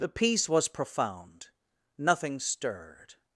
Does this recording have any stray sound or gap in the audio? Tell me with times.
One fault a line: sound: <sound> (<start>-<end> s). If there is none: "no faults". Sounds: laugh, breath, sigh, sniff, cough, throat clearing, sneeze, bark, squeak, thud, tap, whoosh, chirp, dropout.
no faults